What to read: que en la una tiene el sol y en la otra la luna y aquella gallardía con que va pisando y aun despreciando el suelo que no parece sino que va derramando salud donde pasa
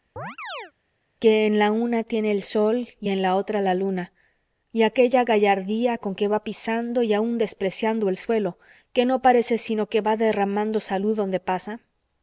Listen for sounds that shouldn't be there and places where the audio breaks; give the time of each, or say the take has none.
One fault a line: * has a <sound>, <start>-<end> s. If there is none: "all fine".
* has a chirp, 0.2-0.7 s